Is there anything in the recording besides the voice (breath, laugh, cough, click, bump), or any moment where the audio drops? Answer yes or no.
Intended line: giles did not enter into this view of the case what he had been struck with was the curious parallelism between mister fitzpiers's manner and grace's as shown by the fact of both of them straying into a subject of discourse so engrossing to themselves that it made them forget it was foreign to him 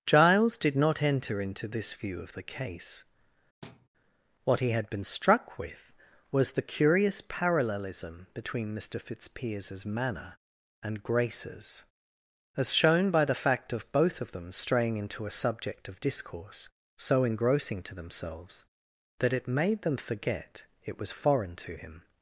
yes